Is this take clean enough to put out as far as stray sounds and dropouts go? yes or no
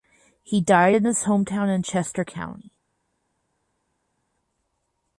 yes